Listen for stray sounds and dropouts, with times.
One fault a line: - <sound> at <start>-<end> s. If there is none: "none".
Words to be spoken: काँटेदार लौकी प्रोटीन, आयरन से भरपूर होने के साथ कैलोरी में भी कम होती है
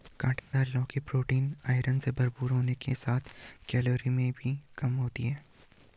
- dropout at 0.4-0.5 s